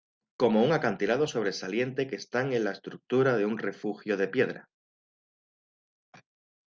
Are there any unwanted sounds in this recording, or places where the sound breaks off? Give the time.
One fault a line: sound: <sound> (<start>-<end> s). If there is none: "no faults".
no faults